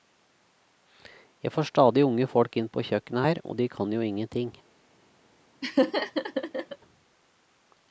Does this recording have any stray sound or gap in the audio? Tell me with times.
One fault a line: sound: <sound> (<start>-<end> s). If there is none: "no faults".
sound: laugh (5.6-6.8 s)